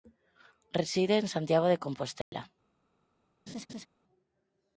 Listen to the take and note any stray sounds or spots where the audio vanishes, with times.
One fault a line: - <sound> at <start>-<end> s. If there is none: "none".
- dropout at 2.2-2.3 s
- laugh at 3.5-3.9 s